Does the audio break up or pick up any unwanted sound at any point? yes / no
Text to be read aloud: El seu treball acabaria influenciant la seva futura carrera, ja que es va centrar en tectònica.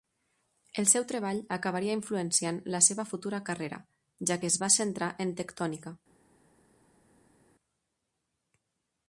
no